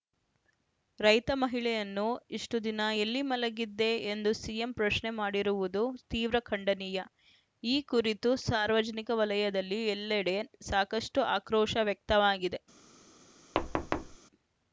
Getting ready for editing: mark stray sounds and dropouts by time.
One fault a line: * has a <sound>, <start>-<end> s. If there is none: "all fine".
* has a thud, 13.5-14.2 s